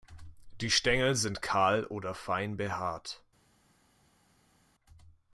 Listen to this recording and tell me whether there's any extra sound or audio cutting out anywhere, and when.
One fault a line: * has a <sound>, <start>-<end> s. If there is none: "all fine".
all fine